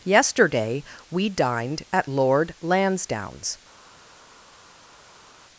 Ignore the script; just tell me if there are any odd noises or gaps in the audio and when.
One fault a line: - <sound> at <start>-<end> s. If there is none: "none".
none